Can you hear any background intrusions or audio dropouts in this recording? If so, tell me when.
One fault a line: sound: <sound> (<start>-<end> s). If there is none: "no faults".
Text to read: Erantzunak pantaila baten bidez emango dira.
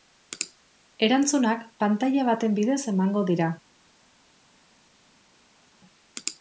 no faults